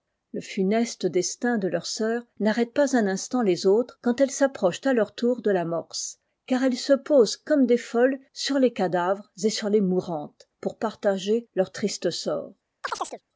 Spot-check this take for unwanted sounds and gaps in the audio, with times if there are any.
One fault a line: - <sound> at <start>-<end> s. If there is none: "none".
- chirp at 12.8-13.2 s